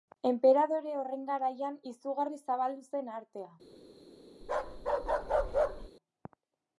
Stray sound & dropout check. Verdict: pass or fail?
fail